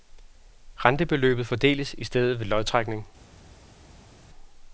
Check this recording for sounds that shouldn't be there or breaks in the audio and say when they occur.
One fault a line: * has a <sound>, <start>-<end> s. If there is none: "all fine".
all fine